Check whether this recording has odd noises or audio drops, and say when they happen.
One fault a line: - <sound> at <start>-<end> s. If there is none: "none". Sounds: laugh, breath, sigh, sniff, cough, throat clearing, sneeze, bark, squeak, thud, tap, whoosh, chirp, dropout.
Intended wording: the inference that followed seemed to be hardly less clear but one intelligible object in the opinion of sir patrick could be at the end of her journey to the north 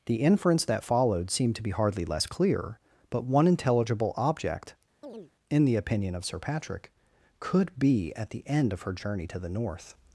- chirp at 5.0-5.3 s